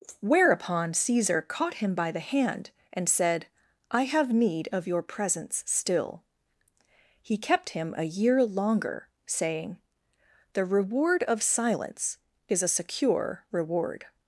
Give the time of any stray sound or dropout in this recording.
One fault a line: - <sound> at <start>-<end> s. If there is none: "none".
none